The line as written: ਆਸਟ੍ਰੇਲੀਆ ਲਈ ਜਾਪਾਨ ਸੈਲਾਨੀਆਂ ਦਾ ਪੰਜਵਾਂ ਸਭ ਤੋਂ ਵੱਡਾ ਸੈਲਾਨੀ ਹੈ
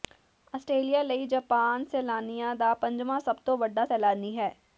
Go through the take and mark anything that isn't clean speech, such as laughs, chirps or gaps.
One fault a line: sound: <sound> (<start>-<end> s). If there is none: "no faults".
no faults